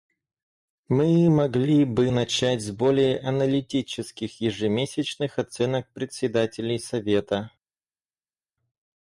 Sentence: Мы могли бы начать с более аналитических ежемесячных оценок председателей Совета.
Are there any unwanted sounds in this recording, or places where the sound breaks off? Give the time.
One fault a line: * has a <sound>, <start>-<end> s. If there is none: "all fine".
all fine